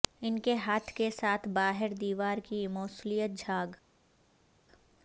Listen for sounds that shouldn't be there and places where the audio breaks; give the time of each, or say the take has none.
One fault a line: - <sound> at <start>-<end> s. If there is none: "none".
none